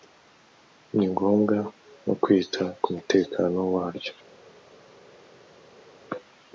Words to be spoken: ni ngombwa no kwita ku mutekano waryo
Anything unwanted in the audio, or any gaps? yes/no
no